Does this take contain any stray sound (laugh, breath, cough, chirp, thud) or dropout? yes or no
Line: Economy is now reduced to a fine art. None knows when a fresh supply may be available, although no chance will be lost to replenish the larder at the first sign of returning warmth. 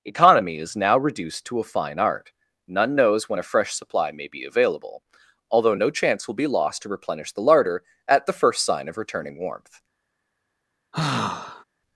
yes